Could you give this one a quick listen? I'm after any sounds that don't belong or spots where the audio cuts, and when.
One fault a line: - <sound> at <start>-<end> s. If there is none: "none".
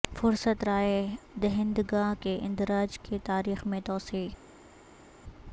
none